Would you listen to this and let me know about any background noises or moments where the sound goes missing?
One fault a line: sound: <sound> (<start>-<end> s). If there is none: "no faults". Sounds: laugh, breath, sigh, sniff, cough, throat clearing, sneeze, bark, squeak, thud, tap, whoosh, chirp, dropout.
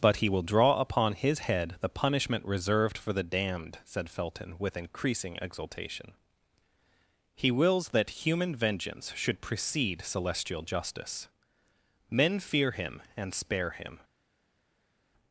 no faults